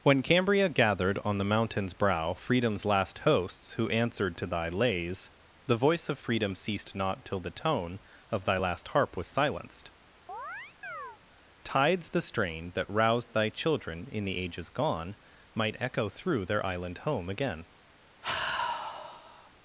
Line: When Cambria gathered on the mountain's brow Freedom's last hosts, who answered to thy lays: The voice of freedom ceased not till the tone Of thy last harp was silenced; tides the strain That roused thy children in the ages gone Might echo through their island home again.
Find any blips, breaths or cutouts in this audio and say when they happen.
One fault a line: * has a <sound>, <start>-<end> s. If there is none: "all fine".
* has a chirp, 10.3-11.2 s
* has a sigh, 18.2-19.5 s